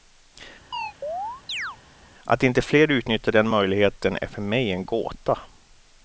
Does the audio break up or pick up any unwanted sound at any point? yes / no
yes